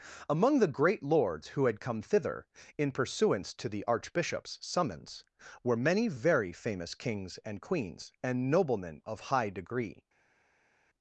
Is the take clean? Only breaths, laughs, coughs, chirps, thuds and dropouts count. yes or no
yes